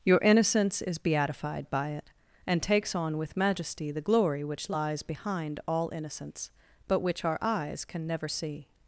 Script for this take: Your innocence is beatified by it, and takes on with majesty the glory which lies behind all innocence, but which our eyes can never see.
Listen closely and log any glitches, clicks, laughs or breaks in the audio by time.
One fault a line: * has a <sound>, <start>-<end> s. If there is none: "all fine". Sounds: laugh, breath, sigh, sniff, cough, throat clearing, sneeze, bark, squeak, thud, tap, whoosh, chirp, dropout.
all fine